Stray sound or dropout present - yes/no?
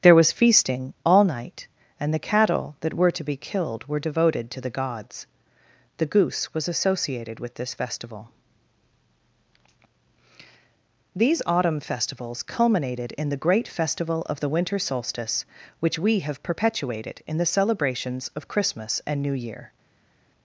no